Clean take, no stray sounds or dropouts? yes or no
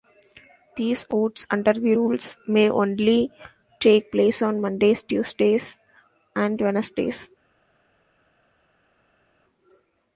yes